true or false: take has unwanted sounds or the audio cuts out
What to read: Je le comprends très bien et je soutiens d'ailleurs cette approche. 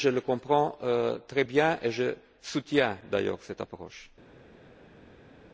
false